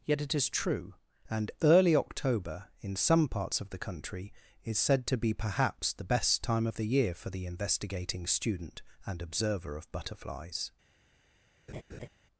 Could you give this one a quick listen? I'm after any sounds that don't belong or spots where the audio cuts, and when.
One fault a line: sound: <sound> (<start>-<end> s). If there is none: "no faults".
sound: laugh (11.7-12.1 s)